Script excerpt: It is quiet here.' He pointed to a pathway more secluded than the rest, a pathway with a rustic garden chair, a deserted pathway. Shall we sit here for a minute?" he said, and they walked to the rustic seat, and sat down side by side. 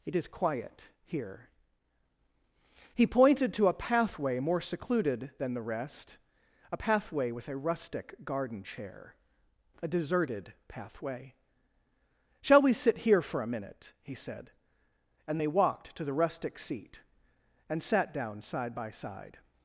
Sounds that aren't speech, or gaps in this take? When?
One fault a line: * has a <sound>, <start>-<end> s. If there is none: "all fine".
all fine